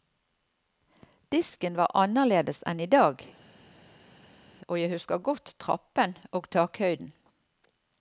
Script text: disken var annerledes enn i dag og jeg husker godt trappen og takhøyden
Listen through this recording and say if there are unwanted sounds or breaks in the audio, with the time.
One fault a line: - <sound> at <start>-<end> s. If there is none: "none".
none